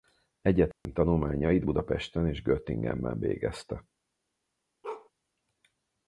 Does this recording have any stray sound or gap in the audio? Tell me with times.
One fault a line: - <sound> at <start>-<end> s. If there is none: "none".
- dropout at 0.7-0.9 s
- bark at 4.8-5.1 s